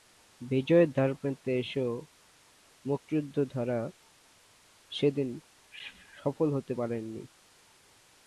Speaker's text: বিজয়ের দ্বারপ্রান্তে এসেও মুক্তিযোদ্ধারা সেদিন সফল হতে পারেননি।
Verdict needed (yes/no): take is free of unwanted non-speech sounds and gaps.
yes